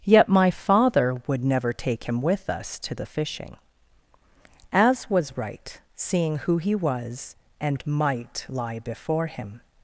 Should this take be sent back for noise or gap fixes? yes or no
no